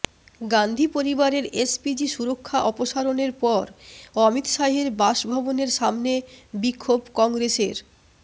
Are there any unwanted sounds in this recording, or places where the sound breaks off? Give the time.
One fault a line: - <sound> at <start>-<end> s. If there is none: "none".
none